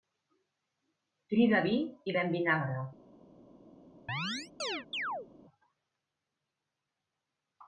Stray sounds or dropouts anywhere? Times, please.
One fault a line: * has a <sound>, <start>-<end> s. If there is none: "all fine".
* has a chirp, 4.1-5.3 s